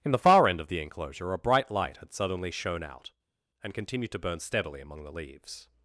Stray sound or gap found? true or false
false